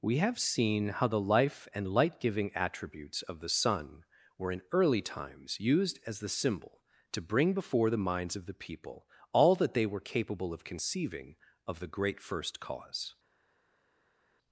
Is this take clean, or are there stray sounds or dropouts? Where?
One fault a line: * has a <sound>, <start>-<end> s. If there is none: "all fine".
all fine